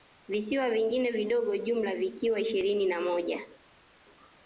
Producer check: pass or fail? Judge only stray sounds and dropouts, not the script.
pass